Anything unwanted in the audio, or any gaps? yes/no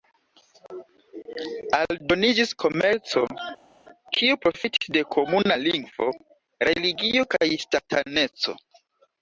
no